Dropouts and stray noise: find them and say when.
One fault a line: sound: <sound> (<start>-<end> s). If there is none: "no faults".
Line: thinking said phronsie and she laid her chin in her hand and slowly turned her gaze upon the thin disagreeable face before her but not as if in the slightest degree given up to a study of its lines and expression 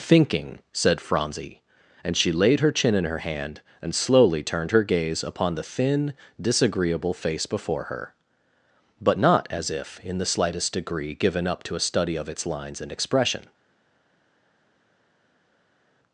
no faults